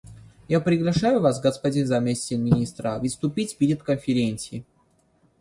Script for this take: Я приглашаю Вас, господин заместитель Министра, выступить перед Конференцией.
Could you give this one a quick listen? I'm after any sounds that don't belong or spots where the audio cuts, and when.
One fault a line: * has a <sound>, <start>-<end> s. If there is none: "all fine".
all fine